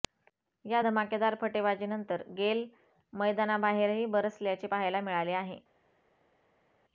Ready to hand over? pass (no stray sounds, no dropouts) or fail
pass